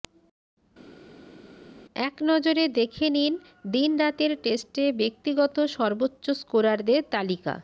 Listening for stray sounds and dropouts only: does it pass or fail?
pass